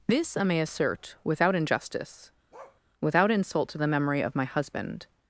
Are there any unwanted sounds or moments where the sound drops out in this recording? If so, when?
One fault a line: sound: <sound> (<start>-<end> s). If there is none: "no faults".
sound: bark (2.5-2.8 s)